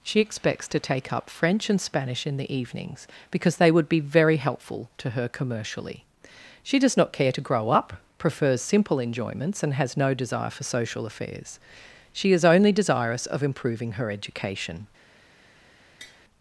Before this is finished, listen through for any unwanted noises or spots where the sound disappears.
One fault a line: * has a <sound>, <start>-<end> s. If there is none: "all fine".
* has a tap, 16.0-16.2 s